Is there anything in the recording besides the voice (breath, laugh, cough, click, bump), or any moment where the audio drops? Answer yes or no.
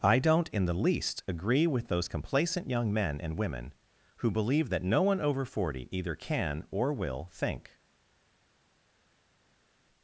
no